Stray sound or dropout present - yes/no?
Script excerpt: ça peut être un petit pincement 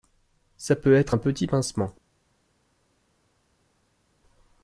no